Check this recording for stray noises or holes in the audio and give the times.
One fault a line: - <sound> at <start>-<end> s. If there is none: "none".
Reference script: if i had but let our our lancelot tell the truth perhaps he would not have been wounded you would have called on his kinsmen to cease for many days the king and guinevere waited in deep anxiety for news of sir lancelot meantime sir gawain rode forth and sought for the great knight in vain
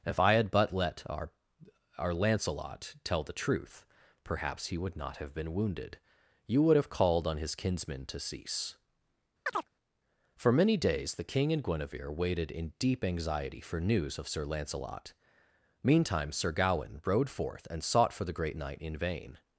- chirp at 9.5-9.7 s